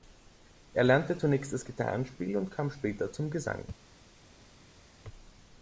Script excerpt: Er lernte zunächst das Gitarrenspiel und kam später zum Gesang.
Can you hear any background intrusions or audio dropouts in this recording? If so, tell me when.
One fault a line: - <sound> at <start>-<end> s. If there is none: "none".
none